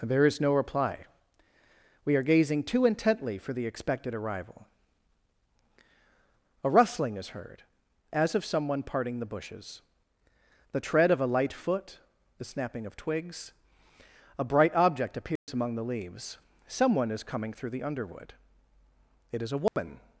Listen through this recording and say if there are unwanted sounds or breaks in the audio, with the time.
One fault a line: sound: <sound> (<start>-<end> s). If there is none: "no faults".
sound: dropout (15.4-15.5 s)
sound: dropout (19.7-19.8 s)